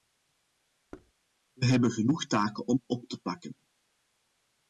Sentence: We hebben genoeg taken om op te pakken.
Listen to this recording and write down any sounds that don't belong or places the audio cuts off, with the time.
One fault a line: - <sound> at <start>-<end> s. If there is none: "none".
- thud at 0.9-1.1 s